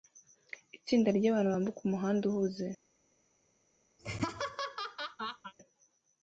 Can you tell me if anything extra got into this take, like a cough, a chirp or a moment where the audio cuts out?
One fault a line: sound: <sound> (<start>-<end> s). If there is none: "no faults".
sound: laugh (4.0-5.5 s)